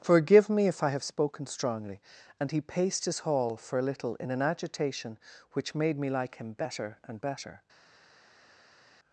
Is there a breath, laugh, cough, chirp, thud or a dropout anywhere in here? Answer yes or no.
no